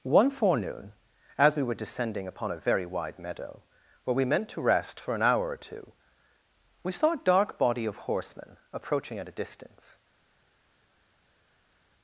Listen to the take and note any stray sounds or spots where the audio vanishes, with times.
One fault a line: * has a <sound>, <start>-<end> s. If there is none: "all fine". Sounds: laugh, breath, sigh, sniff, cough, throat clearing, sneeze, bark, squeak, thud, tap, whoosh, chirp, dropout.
all fine